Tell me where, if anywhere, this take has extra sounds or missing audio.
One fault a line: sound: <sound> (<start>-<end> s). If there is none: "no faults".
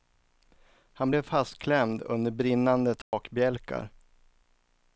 sound: dropout (3.0-3.1 s)